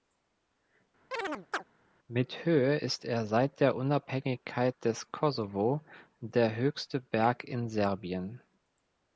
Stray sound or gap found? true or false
true